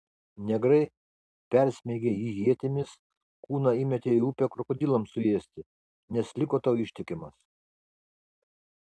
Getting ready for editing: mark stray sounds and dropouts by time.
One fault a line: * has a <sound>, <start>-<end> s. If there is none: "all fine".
all fine